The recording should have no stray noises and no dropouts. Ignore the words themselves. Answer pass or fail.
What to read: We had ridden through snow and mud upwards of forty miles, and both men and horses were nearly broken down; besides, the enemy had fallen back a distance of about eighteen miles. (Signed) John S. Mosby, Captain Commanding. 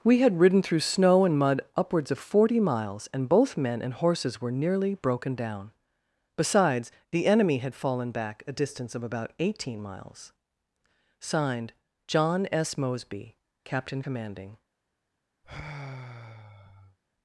fail